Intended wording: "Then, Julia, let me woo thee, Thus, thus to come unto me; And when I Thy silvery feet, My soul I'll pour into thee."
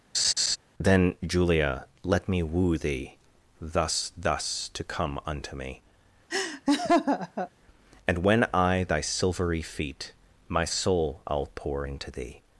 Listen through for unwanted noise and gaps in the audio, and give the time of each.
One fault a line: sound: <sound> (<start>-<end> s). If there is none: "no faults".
sound: laugh (0.1-0.6 s)
sound: laugh (6.3-7.5 s)